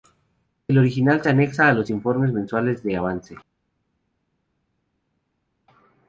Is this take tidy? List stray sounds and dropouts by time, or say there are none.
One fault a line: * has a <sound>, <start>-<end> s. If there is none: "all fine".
all fine